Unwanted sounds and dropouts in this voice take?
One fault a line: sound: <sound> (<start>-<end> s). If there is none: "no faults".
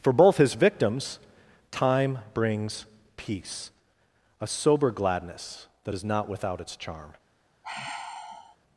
sound: sigh (7.6-8.6 s)